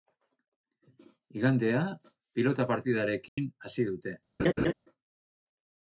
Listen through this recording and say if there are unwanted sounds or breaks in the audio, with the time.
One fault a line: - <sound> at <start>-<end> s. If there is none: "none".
- dropout at 3.3-3.4 s
- laugh at 4.4-4.7 s